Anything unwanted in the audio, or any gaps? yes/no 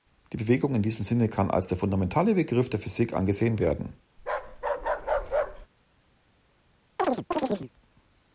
yes